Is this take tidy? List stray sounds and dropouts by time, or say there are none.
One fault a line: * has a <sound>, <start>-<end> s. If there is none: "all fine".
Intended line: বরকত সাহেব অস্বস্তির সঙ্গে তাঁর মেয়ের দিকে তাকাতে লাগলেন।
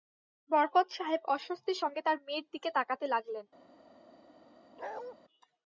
* has a bark, 4.8-5.1 s